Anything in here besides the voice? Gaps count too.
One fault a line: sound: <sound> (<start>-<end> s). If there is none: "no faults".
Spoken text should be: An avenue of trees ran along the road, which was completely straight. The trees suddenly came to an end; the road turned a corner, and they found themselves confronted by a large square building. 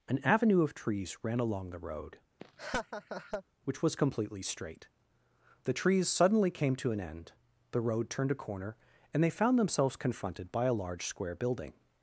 sound: laugh (2.4-3.4 s)